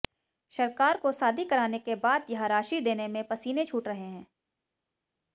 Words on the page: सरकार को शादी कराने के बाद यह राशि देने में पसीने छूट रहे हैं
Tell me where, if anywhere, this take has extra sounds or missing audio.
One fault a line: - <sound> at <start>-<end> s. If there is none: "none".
none